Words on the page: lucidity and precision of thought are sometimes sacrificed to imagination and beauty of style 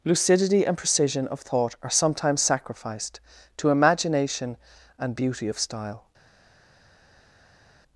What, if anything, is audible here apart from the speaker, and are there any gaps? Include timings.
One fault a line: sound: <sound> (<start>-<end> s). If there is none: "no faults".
no faults